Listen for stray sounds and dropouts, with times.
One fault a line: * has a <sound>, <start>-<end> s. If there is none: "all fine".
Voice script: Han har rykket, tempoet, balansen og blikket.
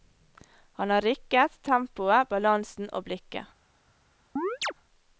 * has a chirp, 4.4-4.7 s